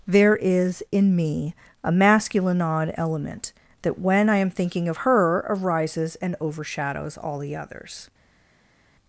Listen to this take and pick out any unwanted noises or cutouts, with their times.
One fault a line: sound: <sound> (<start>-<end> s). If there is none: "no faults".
no faults